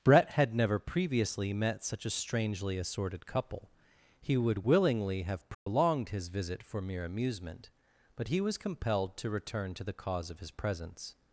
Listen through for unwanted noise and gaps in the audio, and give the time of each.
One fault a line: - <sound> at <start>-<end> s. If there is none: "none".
- dropout at 5.5-5.7 s